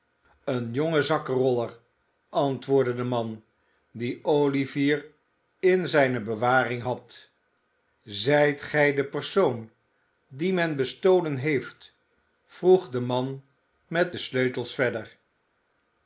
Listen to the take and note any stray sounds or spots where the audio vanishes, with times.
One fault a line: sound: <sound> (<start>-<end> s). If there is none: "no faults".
no faults